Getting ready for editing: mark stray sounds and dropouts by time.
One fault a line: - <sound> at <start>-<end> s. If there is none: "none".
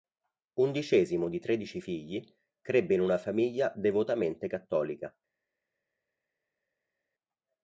none